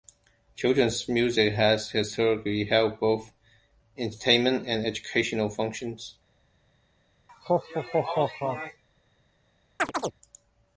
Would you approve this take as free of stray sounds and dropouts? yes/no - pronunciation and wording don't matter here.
no